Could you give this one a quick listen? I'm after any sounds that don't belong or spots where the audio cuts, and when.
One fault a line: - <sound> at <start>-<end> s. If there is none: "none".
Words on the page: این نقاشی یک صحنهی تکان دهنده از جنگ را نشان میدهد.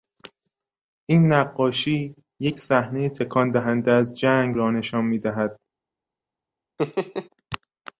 - laugh at 6.8-7.3 s